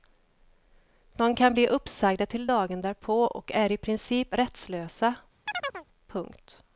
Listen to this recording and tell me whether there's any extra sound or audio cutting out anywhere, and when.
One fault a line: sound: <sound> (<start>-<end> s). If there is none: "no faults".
sound: chirp (5.5-5.9 s)